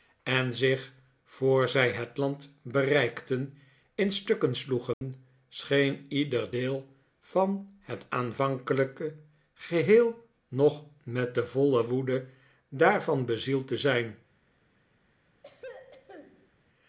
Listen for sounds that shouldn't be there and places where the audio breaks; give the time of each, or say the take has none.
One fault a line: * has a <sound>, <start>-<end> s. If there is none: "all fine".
* has a dropout, 4.9-5.0 s
* has a throat clearing, 15.4-16.5 s